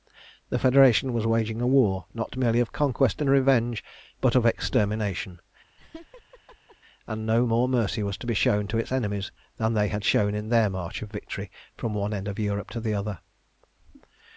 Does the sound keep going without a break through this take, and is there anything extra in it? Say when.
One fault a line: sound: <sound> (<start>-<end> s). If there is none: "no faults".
sound: laugh (5.8-6.8 s)